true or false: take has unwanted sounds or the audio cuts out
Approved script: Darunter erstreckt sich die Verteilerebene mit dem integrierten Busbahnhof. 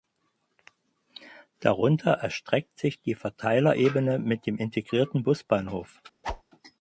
true